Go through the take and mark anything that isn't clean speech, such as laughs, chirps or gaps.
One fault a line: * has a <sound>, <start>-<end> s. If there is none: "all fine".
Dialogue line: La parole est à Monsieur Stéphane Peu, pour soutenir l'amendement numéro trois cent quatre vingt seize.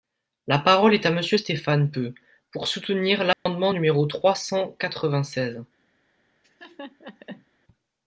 * has a dropout, 3.3-3.5 s
* has a laugh, 6.4-7.5 s